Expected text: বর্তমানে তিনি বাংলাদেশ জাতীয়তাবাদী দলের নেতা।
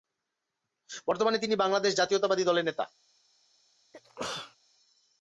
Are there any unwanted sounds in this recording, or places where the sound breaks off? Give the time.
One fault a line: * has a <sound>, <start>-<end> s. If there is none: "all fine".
* has a sneeze, 3.9-4.6 s